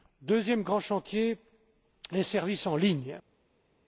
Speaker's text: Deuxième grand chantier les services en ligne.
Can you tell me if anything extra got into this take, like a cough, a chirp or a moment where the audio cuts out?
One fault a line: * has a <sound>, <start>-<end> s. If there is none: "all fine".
all fine